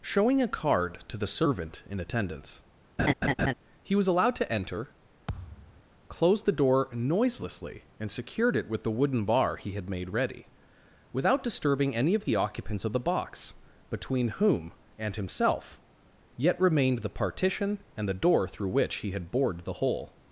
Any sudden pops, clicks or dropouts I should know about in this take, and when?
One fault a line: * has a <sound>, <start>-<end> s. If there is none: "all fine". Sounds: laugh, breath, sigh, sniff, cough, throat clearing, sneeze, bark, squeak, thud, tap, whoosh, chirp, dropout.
* has a laugh, 3.0-3.5 s
* has a thud, 5.3-5.8 s